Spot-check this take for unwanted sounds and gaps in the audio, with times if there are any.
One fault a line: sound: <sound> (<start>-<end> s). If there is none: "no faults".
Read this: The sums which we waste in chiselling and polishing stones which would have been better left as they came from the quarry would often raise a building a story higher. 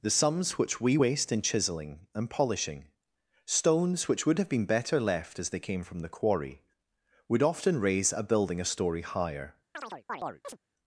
sound: chirp (9.7-10.6 s)